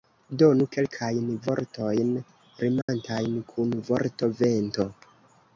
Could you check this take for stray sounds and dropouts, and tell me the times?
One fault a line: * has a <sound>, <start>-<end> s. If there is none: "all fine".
* has a dropout, 2.8-2.9 s